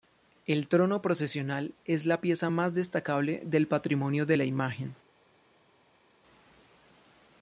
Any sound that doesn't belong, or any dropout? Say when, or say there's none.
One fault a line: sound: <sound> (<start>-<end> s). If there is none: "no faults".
no faults